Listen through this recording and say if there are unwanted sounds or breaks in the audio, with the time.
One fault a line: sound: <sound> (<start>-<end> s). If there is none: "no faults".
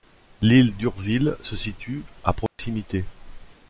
sound: dropout (2.5-2.6 s)